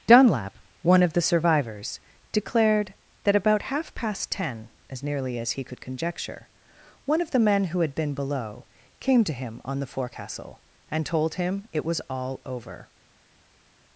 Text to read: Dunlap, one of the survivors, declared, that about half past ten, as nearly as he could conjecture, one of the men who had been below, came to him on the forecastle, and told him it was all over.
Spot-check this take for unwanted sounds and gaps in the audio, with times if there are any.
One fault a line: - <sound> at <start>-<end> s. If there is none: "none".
none